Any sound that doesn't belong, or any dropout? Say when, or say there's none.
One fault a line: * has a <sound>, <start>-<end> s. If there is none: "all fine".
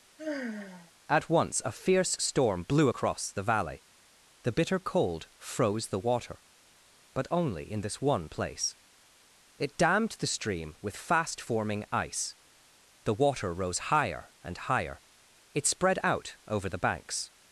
* has a sigh, 0.2-0.9 s